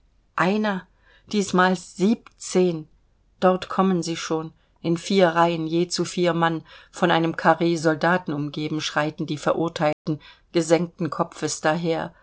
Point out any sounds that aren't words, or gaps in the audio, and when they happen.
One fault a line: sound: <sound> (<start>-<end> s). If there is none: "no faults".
sound: dropout (9.9-10.1 s)